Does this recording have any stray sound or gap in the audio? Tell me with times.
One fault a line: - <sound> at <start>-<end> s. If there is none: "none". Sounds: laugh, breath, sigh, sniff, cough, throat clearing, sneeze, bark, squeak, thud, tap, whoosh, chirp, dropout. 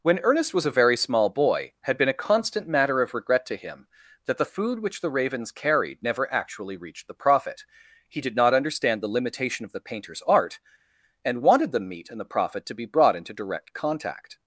none